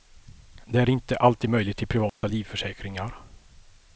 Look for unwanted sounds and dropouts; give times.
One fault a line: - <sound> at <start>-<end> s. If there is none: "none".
- dropout at 2.1-2.2 s